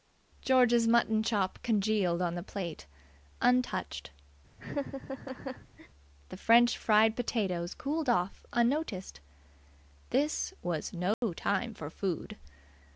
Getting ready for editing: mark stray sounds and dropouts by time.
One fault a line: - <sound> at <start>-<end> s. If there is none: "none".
- laugh at 4.6-5.9 s
- dropout at 11.1-11.2 s